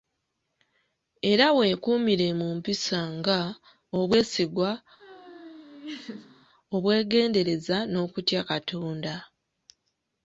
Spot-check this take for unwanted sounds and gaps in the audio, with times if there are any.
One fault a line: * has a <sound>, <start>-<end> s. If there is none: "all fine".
* has a laugh, 5.0-6.5 s